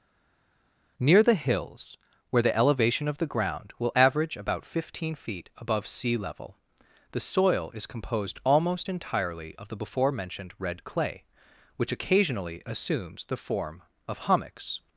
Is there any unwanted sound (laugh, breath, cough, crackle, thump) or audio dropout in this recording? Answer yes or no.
no